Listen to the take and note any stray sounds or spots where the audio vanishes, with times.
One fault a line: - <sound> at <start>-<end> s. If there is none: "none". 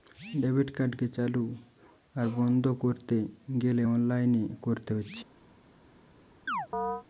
- chirp at 6.5-7.0 s